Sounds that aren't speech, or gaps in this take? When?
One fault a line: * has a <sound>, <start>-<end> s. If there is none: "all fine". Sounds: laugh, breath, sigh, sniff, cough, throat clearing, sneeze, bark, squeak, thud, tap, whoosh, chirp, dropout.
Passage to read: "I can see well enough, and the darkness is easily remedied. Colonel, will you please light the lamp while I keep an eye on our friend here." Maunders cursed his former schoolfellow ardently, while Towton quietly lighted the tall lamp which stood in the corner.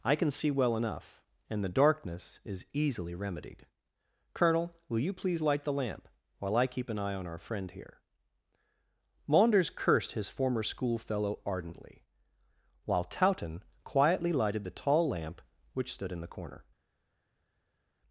all fine